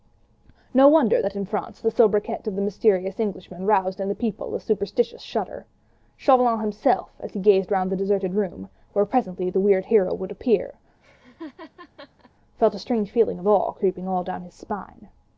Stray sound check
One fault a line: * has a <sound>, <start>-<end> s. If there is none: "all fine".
* has a laugh, 11.0-12.3 s